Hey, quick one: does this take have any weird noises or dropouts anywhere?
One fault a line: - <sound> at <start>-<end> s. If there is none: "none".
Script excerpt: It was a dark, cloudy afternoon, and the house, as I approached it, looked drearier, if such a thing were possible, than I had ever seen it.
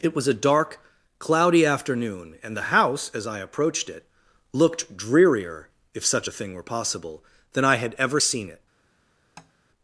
- tap at 9.4-9.5 s